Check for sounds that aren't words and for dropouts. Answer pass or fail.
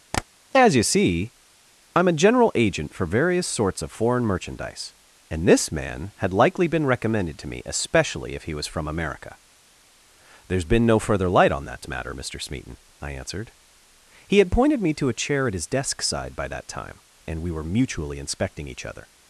fail